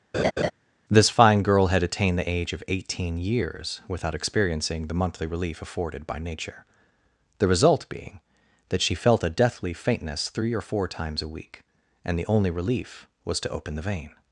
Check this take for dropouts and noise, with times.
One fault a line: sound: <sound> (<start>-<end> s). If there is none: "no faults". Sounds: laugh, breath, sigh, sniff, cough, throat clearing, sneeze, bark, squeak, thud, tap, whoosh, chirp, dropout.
sound: laugh (0.1-0.5 s)